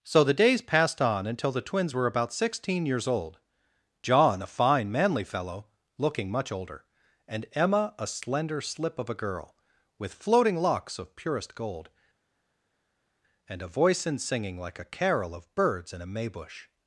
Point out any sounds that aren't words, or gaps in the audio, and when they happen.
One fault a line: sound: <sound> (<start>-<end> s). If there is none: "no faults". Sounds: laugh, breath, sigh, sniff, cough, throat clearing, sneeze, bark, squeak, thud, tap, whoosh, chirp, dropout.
no faults